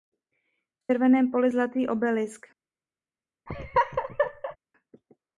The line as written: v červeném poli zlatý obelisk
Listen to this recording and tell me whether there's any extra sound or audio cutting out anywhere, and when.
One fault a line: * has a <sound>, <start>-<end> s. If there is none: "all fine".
* has a laugh, 3.5-4.6 s